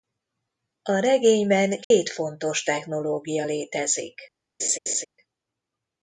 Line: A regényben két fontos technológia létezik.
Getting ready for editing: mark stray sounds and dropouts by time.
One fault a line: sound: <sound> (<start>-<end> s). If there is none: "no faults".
sound: dropout (1.8-1.9 s)
sound: laugh (4.6-5.0 s)